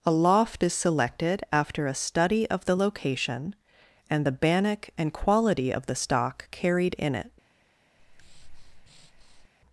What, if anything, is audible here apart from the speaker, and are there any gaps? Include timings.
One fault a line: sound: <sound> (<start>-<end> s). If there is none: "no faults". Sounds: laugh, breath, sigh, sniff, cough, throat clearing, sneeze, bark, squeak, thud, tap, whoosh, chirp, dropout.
sound: breath (8.0-9.5 s)